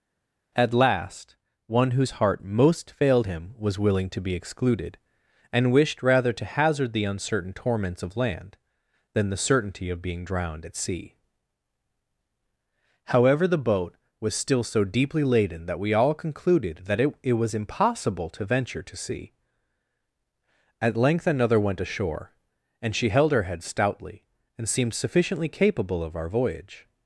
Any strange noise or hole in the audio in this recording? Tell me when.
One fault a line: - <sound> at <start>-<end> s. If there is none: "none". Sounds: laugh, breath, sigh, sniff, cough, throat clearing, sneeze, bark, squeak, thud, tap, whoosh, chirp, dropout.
none